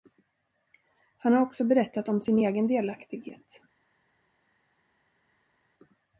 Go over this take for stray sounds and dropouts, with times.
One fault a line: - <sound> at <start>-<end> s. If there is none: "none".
none